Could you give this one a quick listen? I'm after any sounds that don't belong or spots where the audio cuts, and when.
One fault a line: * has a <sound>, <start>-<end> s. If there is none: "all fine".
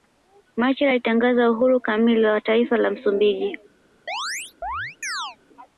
* has a chirp, 4.1-5.4 s